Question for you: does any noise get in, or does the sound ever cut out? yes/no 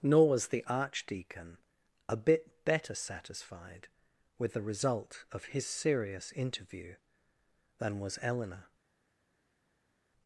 no